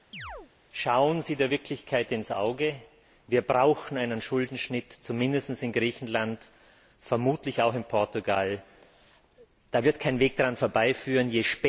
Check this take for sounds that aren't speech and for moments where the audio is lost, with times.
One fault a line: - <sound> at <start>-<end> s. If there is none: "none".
- chirp at 0.1-0.5 s